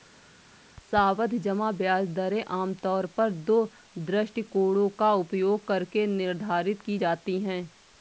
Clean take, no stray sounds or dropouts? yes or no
yes